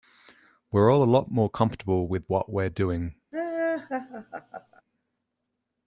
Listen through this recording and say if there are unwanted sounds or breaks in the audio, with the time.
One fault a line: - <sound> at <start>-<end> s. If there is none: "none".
- laugh at 3.3-4.8 s